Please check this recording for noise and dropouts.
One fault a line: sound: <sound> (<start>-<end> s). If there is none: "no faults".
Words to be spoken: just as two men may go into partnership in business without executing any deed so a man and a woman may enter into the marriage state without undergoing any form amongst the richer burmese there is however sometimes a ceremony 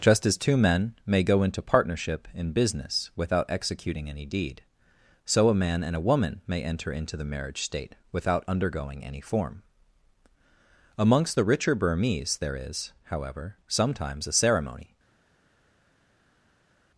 no faults